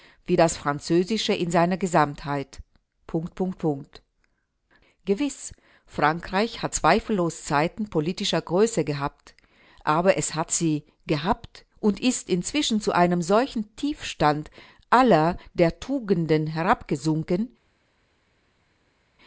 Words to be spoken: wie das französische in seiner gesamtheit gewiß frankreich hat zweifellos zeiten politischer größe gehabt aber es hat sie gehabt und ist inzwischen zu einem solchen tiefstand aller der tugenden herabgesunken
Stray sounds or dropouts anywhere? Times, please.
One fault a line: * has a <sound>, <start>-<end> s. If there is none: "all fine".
all fine